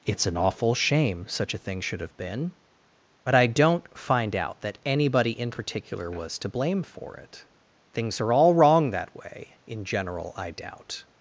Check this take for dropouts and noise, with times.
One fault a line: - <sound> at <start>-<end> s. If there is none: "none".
none